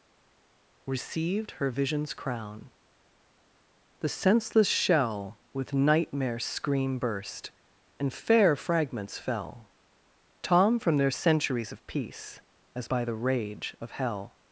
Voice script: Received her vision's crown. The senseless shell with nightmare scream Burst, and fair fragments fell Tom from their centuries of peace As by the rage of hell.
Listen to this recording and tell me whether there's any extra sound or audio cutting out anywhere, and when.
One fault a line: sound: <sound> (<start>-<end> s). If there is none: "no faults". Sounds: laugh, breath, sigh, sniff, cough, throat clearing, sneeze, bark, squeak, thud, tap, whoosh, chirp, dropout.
no faults